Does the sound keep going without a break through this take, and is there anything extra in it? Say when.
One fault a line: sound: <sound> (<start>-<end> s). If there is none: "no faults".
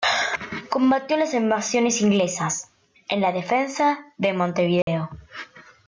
sound: dropout (4.8-4.9 s)